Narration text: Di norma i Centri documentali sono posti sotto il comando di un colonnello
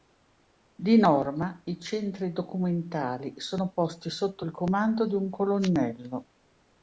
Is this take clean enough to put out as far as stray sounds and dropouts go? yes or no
yes